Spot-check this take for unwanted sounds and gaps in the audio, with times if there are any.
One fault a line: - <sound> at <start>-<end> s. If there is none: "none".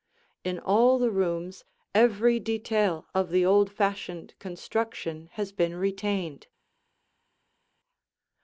none